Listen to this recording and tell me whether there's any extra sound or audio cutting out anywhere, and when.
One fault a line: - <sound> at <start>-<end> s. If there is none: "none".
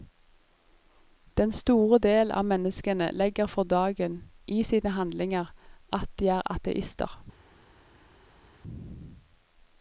none